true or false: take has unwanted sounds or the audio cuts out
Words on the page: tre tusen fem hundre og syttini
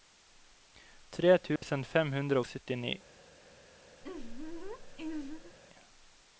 true